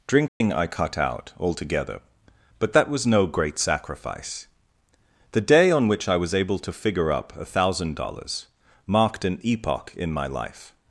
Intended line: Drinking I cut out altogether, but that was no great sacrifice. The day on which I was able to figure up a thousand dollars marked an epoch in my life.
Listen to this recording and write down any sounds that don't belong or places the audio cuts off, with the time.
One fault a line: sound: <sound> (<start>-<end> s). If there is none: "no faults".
sound: dropout (0.3-0.4 s)